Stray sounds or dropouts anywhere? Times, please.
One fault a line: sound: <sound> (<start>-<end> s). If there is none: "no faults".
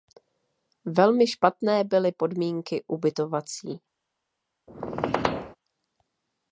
sound: squeak (4.7-5.6 s)